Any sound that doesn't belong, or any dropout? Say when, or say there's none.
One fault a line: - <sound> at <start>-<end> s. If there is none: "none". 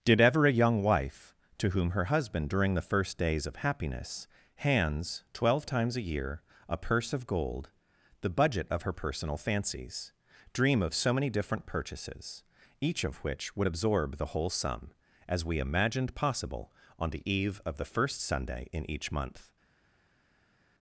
none